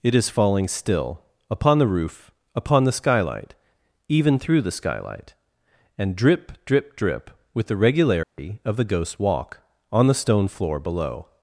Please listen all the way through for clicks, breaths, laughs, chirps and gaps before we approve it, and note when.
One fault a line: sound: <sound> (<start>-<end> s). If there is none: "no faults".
sound: dropout (8.2-8.4 s)